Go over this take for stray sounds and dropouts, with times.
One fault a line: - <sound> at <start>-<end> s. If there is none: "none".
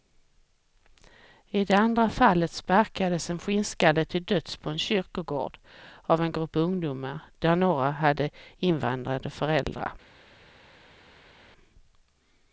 none